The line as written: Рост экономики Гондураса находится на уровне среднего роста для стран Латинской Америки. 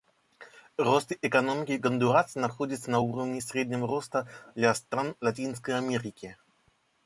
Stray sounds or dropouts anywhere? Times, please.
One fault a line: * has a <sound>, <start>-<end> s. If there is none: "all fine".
all fine